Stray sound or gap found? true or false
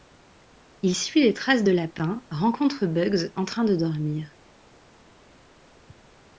false